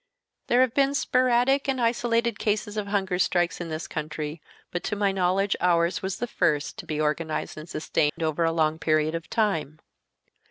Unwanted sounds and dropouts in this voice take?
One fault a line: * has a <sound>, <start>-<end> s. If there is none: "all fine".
* has a dropout, 8.1-8.2 s